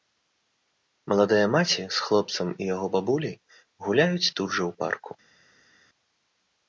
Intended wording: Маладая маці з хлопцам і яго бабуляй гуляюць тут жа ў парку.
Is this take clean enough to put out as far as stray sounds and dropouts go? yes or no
yes